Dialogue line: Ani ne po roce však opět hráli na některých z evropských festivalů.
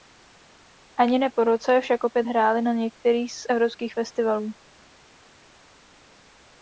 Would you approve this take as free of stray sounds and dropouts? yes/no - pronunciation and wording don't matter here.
yes